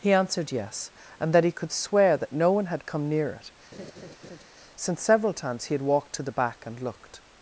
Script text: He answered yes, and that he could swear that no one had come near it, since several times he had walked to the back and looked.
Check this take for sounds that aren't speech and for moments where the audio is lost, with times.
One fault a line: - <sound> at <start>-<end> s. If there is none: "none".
- laugh at 3.7-4.4 s